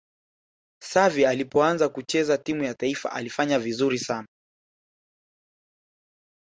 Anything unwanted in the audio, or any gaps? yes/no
no